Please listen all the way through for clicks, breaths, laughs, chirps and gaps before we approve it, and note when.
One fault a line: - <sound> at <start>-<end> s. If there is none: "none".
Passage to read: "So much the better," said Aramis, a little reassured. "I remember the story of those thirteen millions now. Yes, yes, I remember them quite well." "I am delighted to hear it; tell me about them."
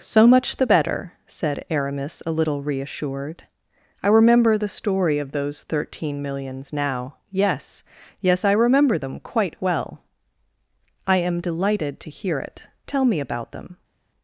none